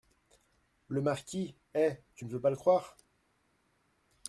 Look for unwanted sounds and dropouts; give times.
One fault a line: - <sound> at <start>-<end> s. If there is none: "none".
none